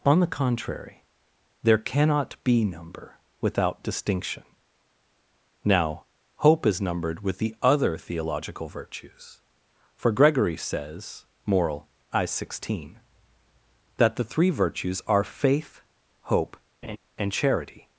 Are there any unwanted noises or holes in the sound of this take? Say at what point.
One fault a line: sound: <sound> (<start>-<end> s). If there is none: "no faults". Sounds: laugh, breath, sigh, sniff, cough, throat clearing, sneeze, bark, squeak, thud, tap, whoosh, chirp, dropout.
sound: laugh (16.8-17.0 s)